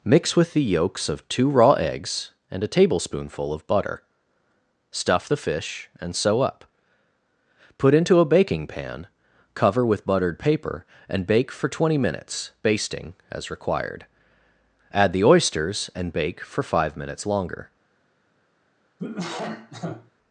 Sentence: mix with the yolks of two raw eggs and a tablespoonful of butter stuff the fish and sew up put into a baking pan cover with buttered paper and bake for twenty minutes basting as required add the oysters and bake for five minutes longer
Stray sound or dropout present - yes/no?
yes